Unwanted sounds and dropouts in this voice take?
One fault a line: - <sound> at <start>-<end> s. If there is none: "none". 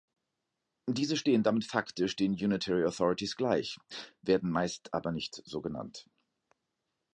none